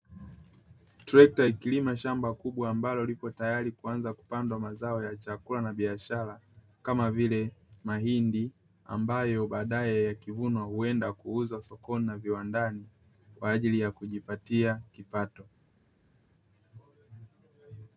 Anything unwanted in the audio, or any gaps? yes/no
no